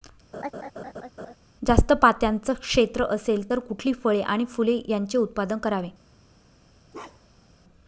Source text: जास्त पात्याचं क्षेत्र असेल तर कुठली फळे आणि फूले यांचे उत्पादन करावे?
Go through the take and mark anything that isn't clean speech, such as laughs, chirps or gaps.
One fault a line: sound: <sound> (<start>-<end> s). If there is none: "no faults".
sound: laugh (0.3-1.4 s)
sound: bark (6.9-7.5 s)